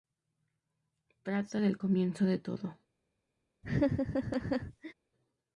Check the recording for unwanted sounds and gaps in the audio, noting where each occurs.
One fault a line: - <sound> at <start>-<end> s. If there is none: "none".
- laugh at 3.6-4.9 s